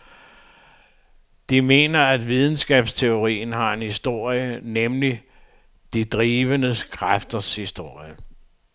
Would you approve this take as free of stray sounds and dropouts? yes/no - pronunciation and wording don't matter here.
yes